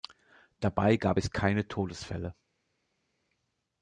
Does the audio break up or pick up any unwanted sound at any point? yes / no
no